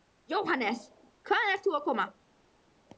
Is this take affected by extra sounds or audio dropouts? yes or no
no